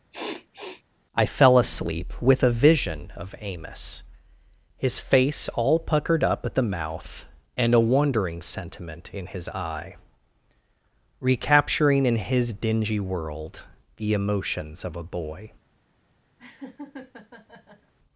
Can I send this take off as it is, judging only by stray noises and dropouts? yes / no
no